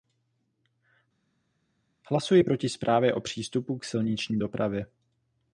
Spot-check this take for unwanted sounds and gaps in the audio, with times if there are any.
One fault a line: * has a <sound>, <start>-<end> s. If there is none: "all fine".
all fine